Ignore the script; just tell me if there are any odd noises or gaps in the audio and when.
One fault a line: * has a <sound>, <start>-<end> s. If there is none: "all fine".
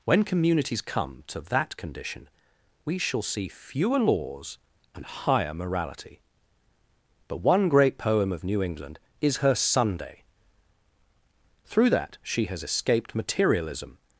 all fine